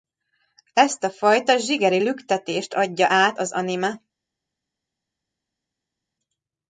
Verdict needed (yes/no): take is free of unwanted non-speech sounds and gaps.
yes